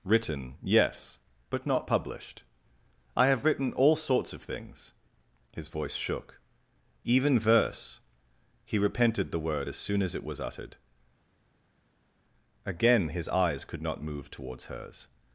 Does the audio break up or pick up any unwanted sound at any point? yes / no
no